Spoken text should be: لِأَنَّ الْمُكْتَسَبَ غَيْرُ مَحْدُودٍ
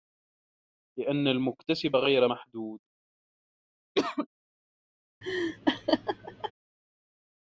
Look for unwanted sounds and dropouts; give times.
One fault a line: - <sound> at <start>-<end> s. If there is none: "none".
- cough at 4.0-4.3 s
- laugh at 5.2-6.5 s